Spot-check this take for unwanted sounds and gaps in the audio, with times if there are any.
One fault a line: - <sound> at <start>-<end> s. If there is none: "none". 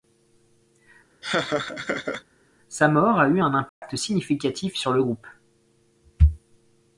- laugh at 1.2-2.2 s
- dropout at 3.7-3.8 s